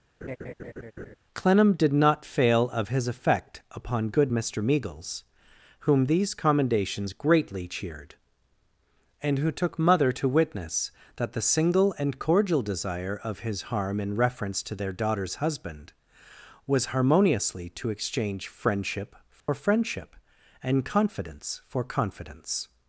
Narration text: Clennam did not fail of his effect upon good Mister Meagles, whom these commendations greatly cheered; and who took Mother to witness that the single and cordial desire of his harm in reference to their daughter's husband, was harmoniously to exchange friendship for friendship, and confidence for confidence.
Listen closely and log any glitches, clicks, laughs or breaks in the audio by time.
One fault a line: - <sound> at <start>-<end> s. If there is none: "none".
- laugh at 0.2-1.2 s
- dropout at 19.4-19.5 s